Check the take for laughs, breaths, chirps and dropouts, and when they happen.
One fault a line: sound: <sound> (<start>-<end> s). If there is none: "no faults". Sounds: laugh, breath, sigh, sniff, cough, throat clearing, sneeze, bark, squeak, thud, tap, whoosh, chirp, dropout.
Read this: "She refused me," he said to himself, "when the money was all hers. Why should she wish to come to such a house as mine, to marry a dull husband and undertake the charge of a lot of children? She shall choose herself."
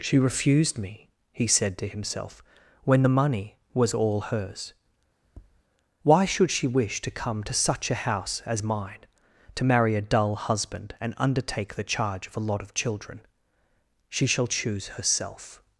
sound: tap (5.2-5.6 s)